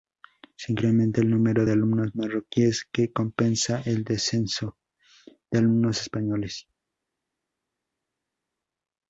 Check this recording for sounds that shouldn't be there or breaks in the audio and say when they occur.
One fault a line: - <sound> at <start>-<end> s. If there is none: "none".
none